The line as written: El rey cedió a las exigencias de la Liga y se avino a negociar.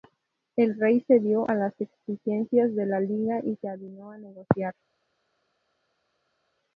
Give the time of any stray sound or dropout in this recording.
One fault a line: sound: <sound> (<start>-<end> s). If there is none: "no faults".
no faults